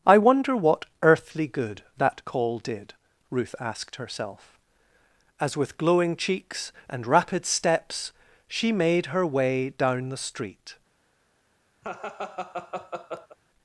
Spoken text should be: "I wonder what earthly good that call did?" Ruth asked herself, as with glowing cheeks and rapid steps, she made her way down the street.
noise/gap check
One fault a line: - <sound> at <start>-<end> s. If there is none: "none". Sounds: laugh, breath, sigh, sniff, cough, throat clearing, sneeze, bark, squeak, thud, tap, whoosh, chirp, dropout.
- laugh at 11.8-13.4 s